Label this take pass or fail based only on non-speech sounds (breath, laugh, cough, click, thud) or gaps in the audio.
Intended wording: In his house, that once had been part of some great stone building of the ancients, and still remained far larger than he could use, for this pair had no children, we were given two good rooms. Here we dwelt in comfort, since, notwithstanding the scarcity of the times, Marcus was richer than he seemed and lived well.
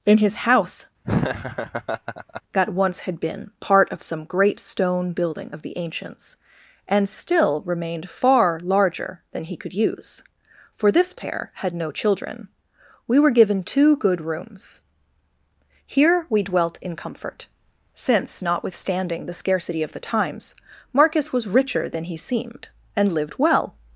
fail